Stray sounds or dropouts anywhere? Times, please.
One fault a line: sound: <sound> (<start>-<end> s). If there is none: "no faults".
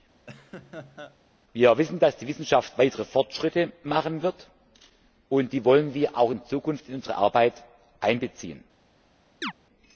sound: laugh (0.3-1.2 s)
sound: chirp (9.4-9.5 s)